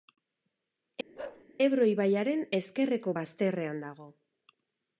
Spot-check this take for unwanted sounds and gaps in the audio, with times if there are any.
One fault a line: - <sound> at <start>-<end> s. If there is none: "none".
- bark at 1.2-1.5 s